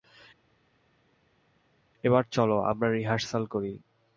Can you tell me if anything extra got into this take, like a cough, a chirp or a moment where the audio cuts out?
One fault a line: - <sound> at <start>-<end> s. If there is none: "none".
none